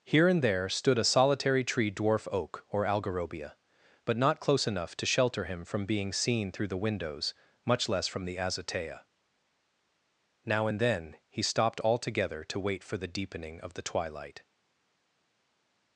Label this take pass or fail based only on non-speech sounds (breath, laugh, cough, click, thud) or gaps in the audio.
pass